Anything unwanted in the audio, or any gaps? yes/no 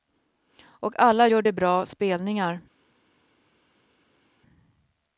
no